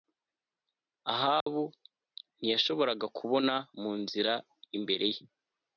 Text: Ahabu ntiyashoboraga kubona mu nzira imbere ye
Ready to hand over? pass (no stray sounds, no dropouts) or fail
fail